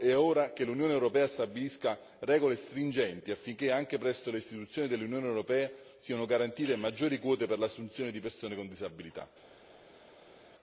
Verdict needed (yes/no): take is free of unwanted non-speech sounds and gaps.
yes